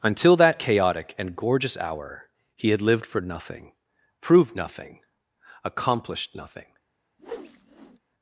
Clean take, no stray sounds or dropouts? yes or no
no